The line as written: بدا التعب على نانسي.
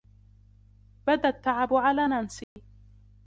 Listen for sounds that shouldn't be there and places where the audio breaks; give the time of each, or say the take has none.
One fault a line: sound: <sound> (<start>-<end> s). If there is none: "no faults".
sound: dropout (2.4-2.6 s)